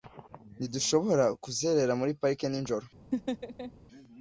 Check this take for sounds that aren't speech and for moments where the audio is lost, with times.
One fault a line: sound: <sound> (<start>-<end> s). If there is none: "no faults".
sound: laugh (3.1-3.7 s)